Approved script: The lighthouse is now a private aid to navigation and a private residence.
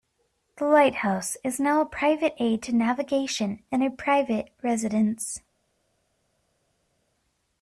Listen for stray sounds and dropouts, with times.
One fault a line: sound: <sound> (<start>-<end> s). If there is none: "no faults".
no faults